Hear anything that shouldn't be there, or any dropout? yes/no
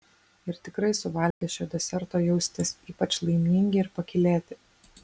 yes